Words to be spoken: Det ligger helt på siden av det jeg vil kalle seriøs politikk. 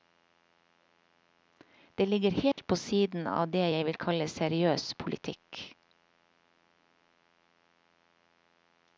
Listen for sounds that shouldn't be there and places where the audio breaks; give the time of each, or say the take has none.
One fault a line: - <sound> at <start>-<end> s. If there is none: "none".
- dropout at 2.5-2.6 s